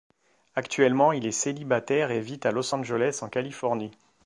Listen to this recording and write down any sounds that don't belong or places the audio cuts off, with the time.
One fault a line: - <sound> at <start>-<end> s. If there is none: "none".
none